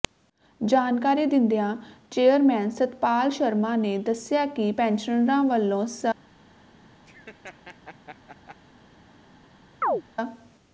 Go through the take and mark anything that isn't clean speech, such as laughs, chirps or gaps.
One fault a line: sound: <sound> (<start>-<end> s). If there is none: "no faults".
sound: laugh (7.1-8.6 s)
sound: chirp (9.8-10.0 s)